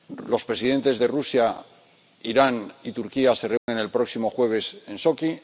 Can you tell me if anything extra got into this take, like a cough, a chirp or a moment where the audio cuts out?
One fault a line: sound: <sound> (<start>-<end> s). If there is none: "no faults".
sound: dropout (3.6-3.7 s)